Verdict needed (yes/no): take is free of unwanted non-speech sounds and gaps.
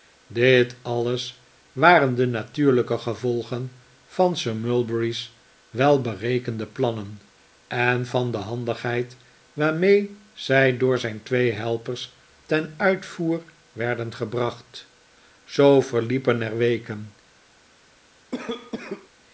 no